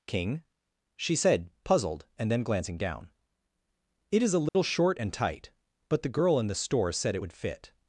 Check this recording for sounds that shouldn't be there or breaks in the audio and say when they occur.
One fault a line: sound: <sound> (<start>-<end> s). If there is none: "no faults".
sound: dropout (4.5-4.6 s)